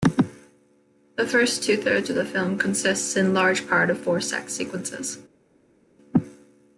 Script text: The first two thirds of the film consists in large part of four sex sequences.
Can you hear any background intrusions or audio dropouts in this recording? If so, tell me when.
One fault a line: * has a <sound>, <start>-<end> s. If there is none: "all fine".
all fine